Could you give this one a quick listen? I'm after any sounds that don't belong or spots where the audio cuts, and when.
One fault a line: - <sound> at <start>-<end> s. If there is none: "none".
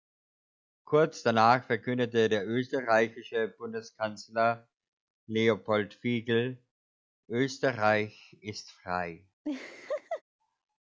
- laugh at 9.4-10.2 s